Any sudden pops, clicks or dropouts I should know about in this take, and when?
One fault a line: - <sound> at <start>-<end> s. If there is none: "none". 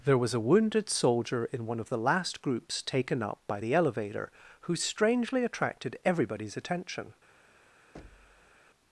- thud at 7.9-8.6 s